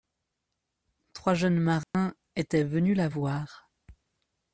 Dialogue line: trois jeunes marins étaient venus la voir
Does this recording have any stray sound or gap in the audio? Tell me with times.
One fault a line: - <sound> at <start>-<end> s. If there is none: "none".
- dropout at 1.8-1.9 s